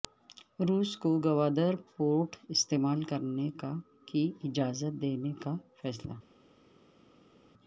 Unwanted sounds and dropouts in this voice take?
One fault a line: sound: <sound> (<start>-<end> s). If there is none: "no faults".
no faults